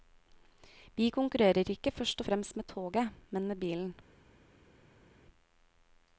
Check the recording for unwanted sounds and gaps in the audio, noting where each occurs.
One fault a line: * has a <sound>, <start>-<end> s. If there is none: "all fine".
all fine